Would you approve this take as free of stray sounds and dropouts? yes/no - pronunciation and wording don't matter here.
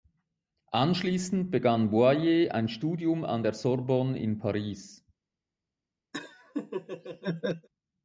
no